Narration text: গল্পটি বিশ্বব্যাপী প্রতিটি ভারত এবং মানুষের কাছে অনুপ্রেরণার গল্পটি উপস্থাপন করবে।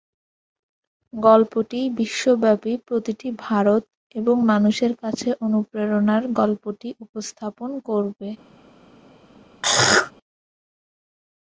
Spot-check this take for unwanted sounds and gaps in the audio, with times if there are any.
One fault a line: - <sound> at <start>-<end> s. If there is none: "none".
- throat clearing at 9.6-10.1 s